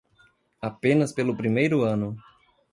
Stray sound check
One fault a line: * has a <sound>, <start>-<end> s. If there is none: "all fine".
all fine